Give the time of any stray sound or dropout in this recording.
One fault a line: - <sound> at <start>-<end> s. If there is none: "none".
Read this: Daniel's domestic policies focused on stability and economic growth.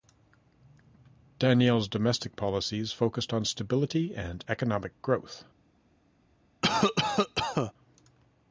- cough at 6.6-7.7 s